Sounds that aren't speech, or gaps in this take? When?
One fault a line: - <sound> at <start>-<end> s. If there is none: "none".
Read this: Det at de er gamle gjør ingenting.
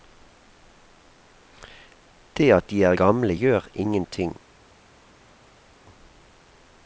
none